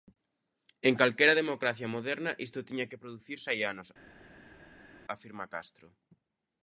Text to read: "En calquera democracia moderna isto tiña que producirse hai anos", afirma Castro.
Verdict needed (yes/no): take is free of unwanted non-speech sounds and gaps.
yes